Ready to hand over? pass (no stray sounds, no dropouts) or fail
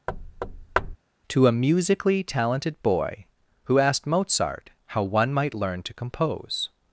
fail